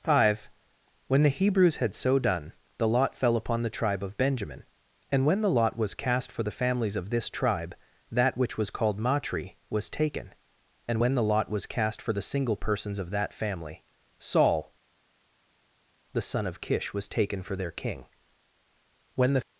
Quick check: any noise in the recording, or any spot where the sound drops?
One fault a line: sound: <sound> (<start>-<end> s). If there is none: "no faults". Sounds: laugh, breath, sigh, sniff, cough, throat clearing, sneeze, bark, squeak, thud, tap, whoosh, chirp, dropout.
no faults